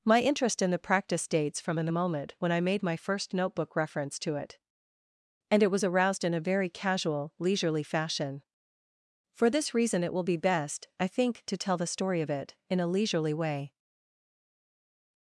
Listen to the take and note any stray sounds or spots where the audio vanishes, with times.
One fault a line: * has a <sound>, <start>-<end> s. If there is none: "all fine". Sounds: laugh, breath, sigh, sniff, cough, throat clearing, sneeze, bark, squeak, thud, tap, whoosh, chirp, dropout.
all fine